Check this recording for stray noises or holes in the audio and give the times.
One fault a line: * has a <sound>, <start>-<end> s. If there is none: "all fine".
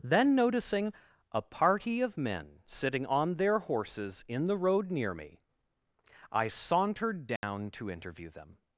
* has a dropout, 7.4-7.4 s